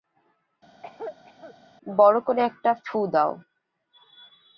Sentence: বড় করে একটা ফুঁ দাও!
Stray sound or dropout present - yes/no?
yes